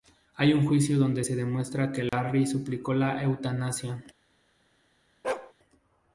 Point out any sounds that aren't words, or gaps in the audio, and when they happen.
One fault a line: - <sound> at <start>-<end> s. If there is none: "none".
- dropout at 2.1-2.1 s
- bark at 5.2-5.5 s